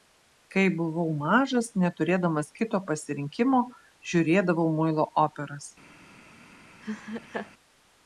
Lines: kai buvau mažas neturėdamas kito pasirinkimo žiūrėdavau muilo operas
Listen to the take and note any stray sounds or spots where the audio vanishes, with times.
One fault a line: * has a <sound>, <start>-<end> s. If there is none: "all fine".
* has a laugh, 6.8-7.5 s